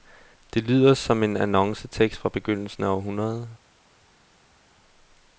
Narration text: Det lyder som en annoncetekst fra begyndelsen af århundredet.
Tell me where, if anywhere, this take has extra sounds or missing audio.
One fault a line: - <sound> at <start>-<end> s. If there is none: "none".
none